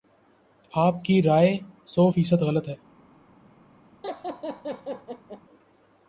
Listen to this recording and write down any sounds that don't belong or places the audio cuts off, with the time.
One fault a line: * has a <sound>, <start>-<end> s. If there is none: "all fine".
* has a laugh, 4.0-5.4 s